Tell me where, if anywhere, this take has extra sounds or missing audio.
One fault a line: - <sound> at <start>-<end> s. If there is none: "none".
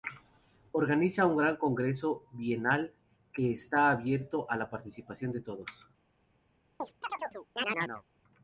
- chirp at 6.8-8.0 s